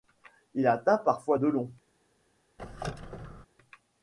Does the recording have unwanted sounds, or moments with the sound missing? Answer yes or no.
yes